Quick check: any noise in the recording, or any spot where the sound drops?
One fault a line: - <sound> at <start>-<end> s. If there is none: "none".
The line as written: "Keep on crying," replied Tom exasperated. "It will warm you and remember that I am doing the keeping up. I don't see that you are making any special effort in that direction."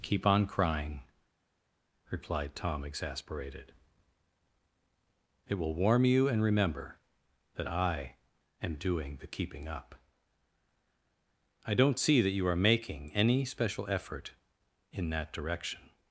none